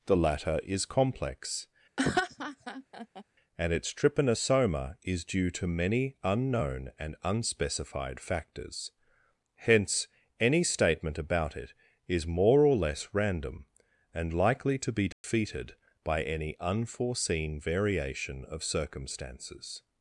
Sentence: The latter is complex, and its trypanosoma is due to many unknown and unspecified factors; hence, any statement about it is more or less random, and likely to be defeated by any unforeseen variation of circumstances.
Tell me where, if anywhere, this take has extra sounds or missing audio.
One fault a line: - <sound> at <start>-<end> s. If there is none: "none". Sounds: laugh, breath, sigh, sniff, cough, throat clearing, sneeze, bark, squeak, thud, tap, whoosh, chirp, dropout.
- laugh at 2.0-3.2 s
- dropout at 15.1-15.2 s